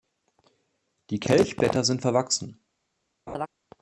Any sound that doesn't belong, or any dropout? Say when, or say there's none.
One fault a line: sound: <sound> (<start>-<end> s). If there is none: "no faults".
sound: laugh (3.3-3.5 s)